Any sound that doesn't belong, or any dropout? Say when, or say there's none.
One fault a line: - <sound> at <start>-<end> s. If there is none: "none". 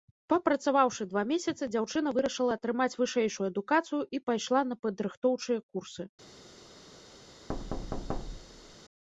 - thud at 7.5-8.8 s